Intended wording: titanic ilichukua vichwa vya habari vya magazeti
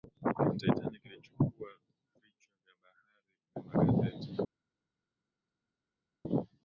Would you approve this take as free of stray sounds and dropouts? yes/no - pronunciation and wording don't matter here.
yes